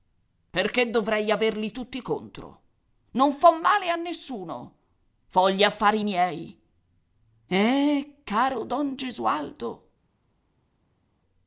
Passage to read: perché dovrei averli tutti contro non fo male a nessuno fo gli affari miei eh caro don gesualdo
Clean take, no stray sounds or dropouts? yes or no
yes